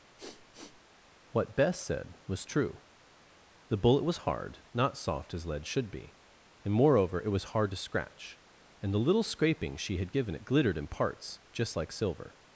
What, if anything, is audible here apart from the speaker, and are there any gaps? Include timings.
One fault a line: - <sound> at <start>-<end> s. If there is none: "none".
- sniff at 0.2-0.8 s